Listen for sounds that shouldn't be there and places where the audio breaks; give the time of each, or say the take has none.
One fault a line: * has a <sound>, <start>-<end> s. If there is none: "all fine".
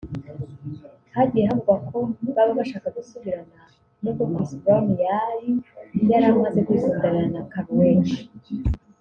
all fine